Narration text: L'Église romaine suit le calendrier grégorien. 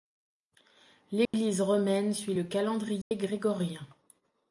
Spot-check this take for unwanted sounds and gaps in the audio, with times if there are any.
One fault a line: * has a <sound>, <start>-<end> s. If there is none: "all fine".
* has a dropout, 1.2-1.3 s
* has a dropout, 3.0-3.1 s